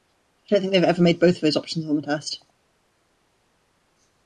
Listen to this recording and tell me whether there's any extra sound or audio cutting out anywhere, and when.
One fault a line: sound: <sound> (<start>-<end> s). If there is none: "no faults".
no faults